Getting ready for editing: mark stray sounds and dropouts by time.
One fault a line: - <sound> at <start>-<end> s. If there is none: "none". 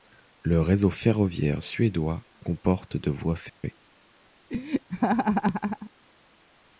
- dropout at 3.5-3.6 s
- laugh at 4.5-5.9 s